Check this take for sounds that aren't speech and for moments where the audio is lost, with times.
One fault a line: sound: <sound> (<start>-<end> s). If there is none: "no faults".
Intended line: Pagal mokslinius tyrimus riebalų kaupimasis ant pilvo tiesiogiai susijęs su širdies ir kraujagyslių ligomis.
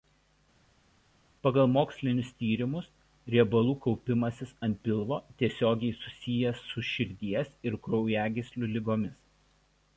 no faults